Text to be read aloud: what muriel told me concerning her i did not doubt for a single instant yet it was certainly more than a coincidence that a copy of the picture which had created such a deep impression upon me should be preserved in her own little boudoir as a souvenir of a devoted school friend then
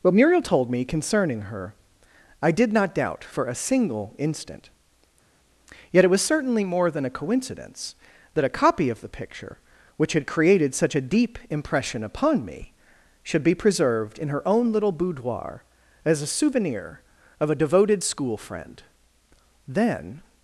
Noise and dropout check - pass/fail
pass